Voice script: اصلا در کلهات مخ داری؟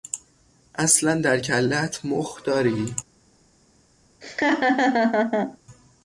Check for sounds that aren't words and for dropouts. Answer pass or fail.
fail